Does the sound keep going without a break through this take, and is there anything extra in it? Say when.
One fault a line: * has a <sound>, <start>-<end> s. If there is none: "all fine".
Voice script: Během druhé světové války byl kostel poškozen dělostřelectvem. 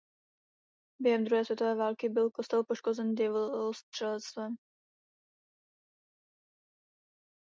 all fine